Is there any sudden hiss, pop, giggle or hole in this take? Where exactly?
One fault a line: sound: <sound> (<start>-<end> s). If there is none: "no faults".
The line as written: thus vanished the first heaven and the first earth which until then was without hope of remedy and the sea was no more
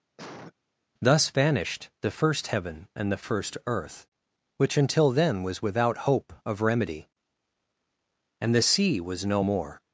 sound: cough (0.2-0.5 s)